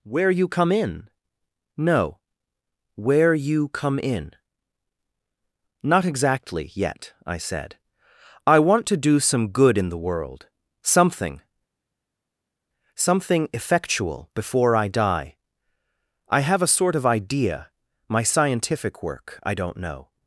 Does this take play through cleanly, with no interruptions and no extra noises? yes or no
yes